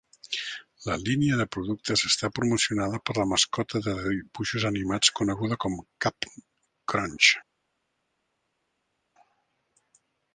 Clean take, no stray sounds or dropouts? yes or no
yes